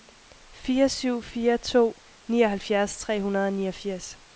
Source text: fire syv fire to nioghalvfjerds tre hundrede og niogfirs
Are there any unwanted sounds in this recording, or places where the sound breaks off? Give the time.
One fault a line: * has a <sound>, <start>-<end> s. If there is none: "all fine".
all fine